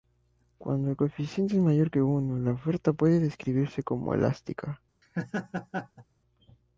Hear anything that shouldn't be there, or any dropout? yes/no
yes